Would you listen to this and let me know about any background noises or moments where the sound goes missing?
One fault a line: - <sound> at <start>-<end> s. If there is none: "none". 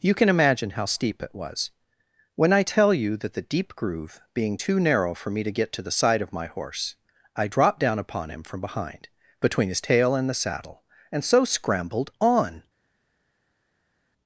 none